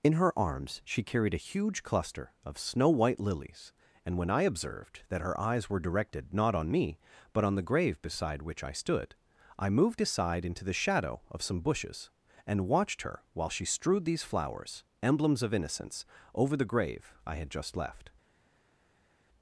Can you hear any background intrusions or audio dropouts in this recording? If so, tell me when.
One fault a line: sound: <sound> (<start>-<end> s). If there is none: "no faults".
no faults